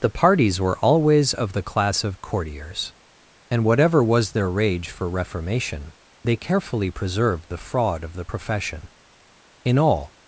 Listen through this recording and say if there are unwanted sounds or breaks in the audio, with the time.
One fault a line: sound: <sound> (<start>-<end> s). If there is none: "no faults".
no faults